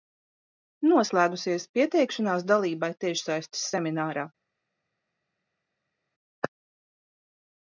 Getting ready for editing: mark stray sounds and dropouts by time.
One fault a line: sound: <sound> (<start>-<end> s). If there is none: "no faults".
no faults